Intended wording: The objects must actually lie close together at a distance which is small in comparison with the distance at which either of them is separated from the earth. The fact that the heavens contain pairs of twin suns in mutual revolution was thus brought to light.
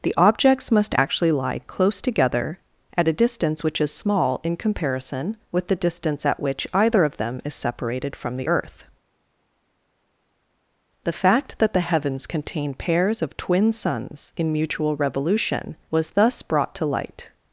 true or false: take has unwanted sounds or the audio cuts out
false